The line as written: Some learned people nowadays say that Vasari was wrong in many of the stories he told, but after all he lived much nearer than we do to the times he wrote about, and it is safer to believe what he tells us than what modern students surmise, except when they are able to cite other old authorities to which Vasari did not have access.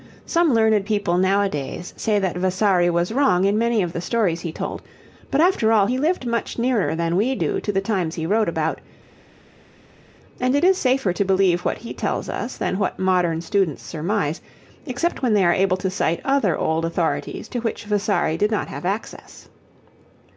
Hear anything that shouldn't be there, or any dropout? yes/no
no